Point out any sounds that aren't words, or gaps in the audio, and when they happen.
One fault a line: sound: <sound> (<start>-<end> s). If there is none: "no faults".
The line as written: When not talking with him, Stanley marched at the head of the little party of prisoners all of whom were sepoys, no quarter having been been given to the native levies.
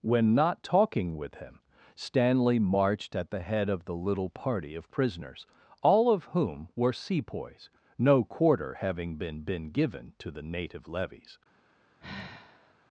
sound: sigh (12.0-12.7 s)